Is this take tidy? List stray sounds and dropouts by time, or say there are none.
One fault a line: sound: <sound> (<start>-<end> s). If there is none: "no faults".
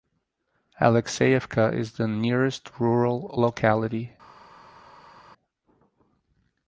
no faults